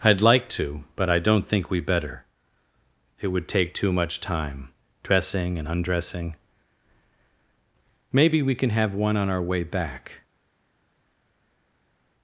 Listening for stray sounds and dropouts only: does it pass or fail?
pass